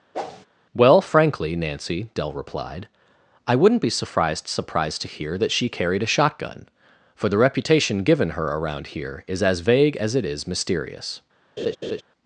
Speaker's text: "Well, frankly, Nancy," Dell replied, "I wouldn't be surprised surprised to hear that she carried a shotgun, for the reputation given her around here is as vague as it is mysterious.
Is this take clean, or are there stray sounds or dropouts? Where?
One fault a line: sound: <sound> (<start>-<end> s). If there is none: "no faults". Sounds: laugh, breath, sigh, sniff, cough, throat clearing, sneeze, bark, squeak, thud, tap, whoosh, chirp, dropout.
sound: whoosh (0.1-0.5 s)
sound: laugh (11.6-12.0 s)